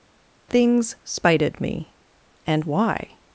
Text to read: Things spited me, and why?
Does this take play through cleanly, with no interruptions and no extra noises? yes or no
yes